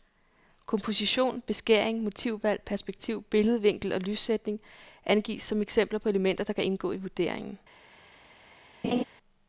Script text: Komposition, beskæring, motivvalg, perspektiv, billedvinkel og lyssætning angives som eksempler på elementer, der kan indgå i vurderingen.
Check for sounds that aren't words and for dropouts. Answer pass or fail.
fail